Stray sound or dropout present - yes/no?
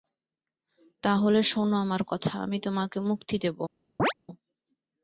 yes